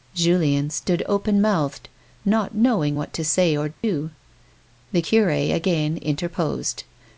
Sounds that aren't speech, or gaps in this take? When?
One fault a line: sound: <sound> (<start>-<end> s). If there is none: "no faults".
sound: dropout (3.7-3.8 s)